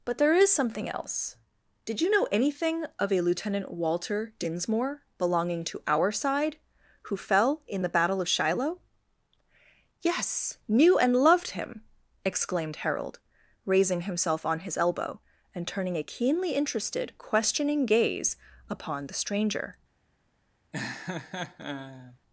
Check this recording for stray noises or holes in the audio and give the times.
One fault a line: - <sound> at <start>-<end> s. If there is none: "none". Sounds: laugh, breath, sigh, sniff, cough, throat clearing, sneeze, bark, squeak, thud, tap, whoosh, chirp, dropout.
- laugh at 20.7-22.2 s